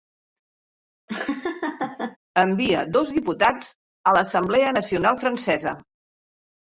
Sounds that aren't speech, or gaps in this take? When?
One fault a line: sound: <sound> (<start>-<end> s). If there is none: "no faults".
sound: laugh (1.1-2.2 s)